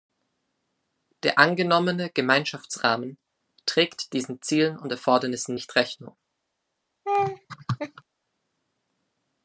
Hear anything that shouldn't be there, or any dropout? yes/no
yes